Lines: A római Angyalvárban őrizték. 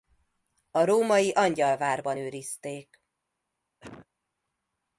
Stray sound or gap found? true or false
true